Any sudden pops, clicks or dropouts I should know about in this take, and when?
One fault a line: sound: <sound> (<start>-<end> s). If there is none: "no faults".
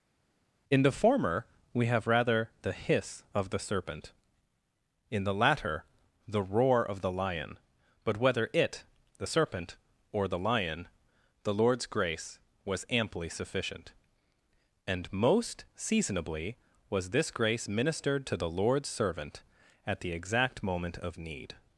no faults